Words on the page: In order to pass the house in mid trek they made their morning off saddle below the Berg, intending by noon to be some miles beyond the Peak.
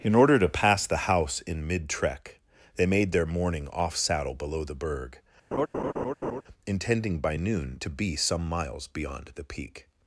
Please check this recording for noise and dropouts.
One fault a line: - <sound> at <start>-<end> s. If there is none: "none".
- laugh at 5.5-6.4 s